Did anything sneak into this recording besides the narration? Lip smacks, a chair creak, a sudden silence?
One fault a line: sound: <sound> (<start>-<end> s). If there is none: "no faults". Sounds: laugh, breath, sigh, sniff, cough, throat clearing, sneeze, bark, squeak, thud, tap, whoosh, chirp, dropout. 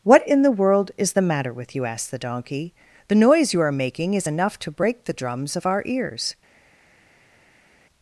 no faults